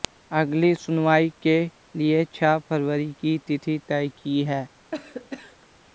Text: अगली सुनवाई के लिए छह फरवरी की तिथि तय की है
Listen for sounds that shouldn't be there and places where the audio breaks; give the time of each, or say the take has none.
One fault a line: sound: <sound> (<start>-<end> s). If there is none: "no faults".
sound: cough (4.9-5.7 s)